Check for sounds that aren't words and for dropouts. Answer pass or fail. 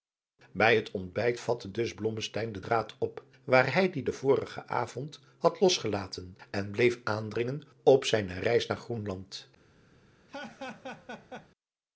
fail